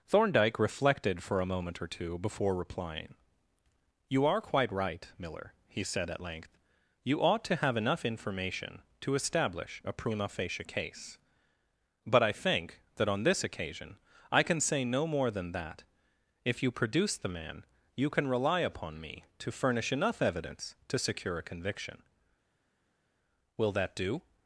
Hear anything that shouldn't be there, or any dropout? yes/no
no